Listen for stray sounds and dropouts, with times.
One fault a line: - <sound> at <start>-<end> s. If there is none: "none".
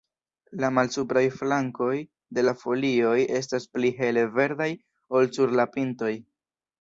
none